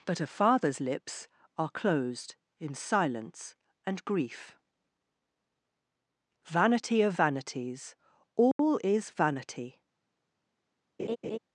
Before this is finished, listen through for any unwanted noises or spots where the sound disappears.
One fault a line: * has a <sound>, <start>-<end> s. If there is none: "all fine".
* has a dropout, 8.5-8.6 s
* has a laugh, 11.0-11.4 s